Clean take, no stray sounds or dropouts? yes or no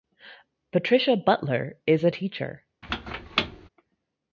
no